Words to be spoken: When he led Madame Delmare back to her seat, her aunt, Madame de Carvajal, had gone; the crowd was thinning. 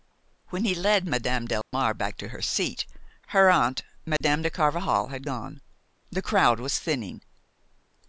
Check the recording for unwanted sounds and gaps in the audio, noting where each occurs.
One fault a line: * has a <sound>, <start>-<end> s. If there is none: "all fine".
* has a dropout, 1.6-1.7 s
* has a dropout, 4.2-4.2 s